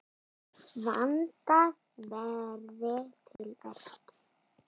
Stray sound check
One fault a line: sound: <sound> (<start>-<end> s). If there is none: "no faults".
sound: dropout (3.4-3.4 s)